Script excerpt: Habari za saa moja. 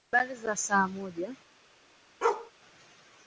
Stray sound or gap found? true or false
true